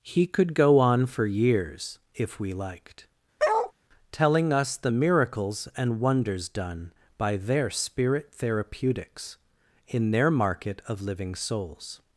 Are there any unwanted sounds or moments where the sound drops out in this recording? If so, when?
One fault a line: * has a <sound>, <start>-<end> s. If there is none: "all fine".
* has a bark, 3.4-3.7 s